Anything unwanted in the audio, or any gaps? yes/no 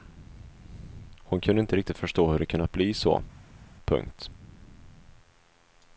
no